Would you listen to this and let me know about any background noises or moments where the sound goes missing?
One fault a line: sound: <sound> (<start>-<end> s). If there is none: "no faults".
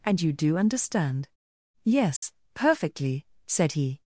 sound: dropout (2.2-2.2 s)